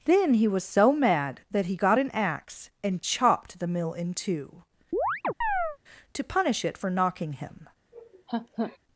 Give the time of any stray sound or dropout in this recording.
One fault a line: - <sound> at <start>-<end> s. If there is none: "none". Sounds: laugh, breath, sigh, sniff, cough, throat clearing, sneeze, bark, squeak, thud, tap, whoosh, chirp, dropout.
- chirp at 4.9-5.8 s
- laugh at 7.9-8.8 s